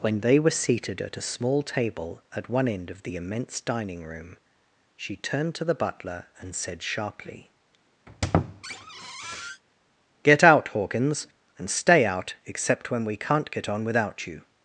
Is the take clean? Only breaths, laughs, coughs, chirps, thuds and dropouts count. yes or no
no